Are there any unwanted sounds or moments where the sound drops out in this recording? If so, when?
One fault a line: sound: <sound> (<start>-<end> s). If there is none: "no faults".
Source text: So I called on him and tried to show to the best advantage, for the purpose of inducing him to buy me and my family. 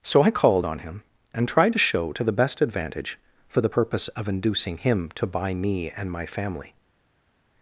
no faults